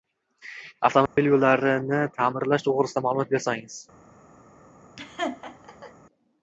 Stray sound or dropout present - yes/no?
yes